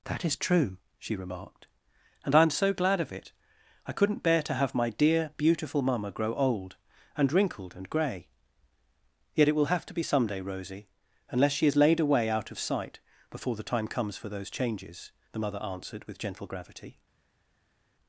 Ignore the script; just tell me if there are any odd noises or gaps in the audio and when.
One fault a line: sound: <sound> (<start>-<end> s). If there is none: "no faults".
no faults